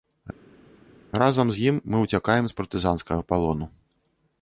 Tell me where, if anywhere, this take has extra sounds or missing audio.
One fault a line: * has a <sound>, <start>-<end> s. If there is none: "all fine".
all fine